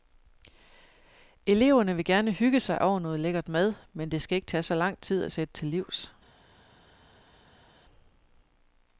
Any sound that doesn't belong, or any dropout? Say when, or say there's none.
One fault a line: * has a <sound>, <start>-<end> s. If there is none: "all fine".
all fine